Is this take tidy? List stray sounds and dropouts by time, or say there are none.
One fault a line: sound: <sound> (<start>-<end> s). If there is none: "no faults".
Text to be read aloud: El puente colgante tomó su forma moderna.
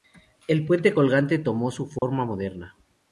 sound: dropout (2.0-2.0 s)